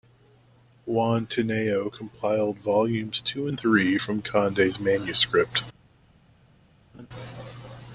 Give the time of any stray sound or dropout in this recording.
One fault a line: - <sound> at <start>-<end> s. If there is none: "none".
- laugh at 6.9-7.1 s